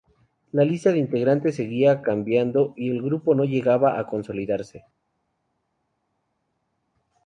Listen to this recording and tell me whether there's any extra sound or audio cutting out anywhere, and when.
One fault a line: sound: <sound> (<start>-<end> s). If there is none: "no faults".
no faults